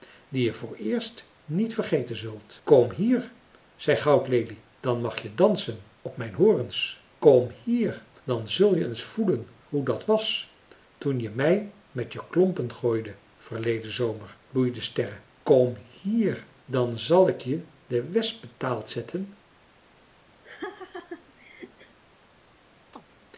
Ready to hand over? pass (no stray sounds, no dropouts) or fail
fail